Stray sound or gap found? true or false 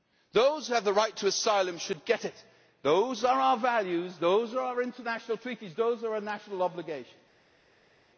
false